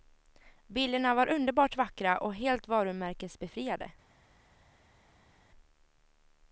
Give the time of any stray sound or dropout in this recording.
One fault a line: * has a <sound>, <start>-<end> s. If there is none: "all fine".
all fine